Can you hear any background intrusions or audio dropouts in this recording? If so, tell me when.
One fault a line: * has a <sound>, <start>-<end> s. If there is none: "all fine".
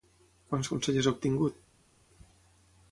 all fine